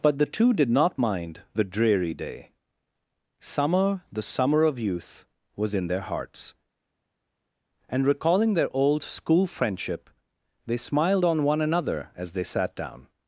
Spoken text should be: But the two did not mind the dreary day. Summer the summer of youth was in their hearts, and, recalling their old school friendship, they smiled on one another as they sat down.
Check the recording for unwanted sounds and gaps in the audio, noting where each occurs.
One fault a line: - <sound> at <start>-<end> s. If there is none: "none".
none